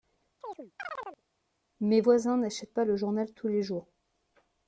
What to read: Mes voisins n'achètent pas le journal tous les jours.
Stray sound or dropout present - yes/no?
yes